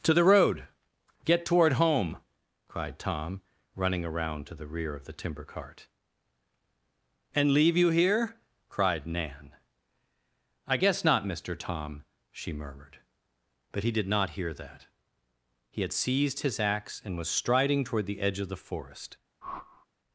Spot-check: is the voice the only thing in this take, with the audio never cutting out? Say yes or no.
no